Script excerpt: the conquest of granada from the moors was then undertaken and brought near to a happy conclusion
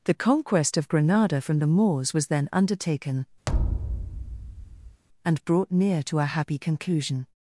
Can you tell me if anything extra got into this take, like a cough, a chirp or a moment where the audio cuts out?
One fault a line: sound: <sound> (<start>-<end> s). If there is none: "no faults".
sound: thud (3.5-5.0 s)